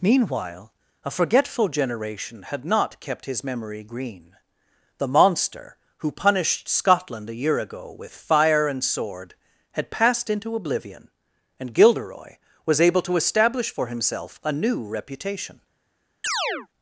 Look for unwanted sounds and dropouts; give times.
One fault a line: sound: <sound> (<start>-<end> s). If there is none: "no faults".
sound: chirp (16.2-16.7 s)